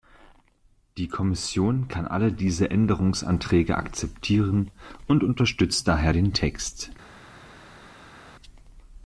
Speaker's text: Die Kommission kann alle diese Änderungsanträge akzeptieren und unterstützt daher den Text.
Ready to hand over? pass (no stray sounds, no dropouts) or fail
pass